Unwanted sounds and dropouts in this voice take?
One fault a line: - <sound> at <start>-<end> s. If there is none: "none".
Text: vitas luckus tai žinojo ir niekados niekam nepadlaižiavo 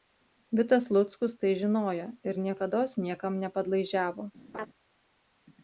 - laugh at 4.5-4.7 s